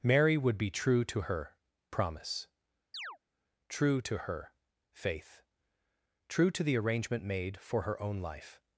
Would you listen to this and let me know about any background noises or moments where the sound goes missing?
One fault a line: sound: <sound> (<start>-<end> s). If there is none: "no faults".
sound: chirp (2.9-3.2 s)